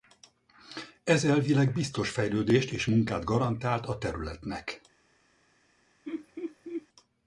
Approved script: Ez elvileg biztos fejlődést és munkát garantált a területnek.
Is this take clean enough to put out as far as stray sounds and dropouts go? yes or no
no